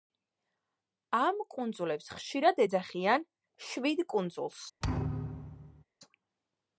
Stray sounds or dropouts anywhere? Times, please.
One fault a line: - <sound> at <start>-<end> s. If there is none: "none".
- thud at 4.8-5.8 s